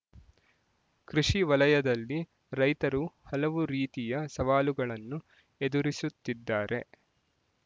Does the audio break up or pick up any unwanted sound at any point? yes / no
no